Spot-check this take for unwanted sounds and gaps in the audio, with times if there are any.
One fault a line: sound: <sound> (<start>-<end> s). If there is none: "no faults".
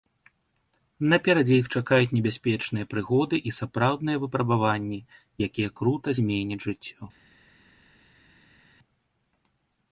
no faults